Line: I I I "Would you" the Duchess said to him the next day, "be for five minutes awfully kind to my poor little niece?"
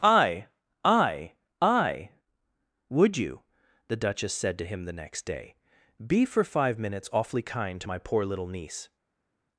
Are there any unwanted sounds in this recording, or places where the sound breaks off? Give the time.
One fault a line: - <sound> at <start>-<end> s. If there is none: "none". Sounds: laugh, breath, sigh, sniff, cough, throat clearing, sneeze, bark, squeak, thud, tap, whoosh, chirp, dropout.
none